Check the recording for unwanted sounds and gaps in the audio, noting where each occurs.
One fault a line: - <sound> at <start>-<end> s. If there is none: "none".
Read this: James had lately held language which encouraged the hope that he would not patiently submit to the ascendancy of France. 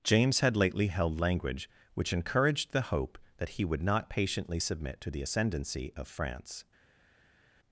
none